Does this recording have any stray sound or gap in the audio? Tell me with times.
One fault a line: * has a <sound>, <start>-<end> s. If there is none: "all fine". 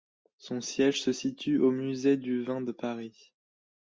all fine